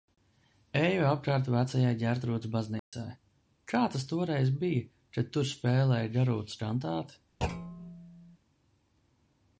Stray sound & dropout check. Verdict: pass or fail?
fail